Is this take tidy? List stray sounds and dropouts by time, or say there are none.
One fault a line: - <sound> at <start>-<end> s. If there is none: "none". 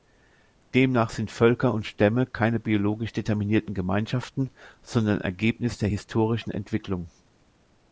none